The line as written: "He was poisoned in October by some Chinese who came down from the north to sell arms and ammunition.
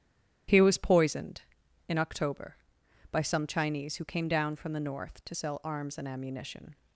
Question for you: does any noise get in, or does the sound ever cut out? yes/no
no